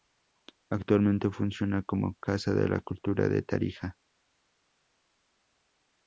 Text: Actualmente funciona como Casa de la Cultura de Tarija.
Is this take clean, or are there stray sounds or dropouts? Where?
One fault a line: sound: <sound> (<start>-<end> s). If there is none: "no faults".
no faults